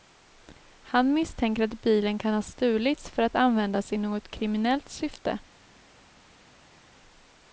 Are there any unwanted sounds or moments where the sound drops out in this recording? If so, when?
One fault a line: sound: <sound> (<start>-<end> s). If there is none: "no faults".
no faults